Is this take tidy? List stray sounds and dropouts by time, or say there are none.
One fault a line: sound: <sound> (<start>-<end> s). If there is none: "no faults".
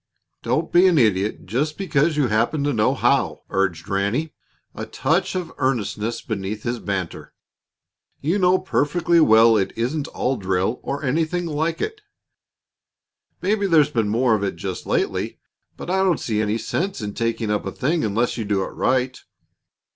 no faults